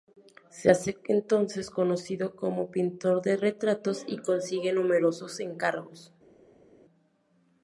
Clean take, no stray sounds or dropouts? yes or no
yes